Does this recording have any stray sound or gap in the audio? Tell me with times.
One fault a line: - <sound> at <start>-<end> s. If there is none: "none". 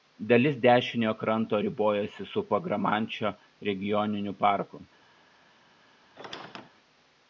- squeak at 6.2-6.7 s